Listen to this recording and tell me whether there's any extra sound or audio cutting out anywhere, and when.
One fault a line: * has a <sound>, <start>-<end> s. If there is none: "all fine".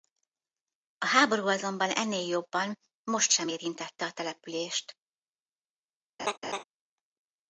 * has a laugh, 6.2-6.6 s